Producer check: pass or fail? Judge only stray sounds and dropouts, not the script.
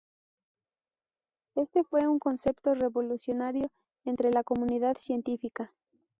pass